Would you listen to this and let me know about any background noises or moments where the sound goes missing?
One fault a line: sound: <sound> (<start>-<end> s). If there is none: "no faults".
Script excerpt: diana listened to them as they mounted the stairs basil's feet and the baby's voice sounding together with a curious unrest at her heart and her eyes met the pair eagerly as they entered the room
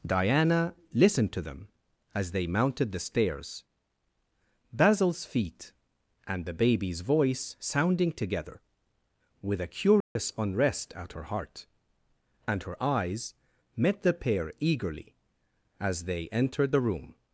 sound: dropout (10.0-10.2 s)